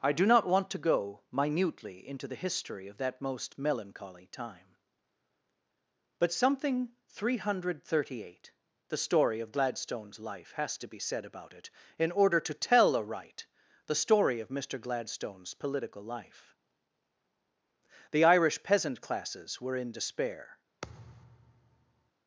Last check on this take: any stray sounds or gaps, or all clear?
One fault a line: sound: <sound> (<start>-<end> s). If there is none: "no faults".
sound: thud (20.8-22.1 s)